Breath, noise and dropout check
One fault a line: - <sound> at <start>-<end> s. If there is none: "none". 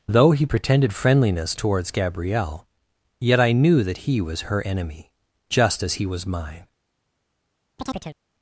- chirp at 7.8-8.2 s